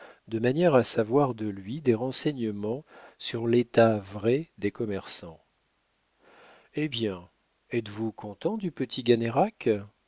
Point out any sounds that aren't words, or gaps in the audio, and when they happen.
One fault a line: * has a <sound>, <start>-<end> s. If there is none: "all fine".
all fine